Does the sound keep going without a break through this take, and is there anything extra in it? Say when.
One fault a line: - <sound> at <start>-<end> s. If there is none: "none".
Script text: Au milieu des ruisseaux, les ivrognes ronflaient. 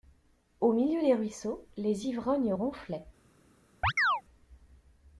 - chirp at 3.8-4.2 s